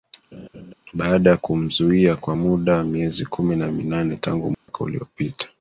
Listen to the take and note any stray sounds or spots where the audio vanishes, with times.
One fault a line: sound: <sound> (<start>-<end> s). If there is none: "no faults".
sound: laugh (0.3-0.7 s)
sound: dropout (4.5-4.7 s)